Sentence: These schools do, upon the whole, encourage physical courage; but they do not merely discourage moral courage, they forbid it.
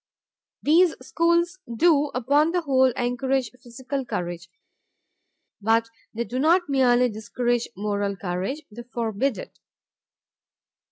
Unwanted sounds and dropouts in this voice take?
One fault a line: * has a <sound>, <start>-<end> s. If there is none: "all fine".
all fine